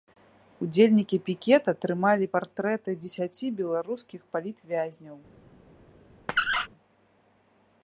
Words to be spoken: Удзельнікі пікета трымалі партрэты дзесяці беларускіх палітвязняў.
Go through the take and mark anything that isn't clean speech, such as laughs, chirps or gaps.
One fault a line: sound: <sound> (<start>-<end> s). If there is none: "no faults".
sound: squeak (6.3-6.7 s)